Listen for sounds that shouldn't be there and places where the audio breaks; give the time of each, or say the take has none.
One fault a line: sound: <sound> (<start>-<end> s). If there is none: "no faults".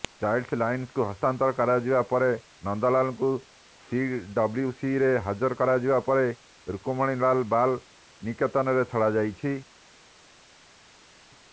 no faults